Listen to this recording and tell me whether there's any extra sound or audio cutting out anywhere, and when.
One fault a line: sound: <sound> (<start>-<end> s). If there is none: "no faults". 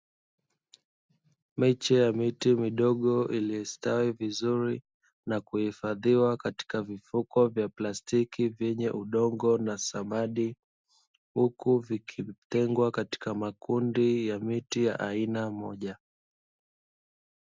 no faults